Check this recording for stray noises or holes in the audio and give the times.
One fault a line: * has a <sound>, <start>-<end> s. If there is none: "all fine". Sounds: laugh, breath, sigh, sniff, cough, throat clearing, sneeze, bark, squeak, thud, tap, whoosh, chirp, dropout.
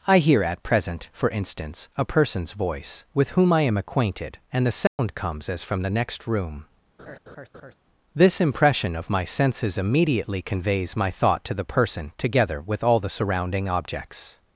* has a dropout, 4.9-5.0 s
* has a laugh, 7.0-7.7 s